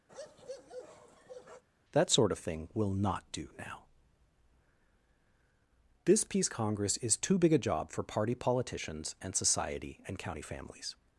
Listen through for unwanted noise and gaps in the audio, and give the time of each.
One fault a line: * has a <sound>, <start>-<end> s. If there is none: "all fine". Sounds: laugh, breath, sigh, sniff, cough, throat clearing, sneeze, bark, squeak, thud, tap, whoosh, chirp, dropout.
* has a bark, 0.1-1.6 s